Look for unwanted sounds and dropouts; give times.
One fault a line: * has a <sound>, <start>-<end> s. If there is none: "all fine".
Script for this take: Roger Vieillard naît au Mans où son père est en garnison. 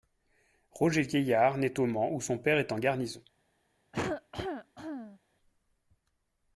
* has a cough, 3.9-5.2 s